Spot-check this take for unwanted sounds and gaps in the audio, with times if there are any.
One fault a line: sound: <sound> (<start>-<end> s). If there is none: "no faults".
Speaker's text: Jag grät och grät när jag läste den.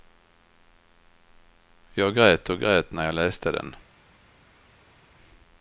no faults